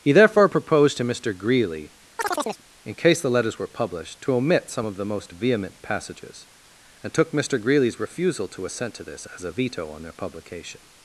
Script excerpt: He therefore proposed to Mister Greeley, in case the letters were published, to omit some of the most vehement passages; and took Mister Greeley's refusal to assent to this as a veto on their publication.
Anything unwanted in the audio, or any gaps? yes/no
yes